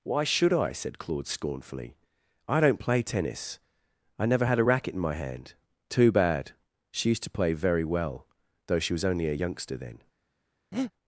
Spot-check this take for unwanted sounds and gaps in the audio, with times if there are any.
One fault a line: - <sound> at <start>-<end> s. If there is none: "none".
- breath at 10.7-10.9 s